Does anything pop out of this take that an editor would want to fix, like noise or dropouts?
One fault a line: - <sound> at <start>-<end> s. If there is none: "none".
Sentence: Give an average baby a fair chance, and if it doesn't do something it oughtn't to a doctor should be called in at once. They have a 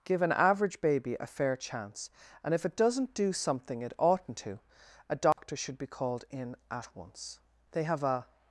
- dropout at 5.3-5.4 s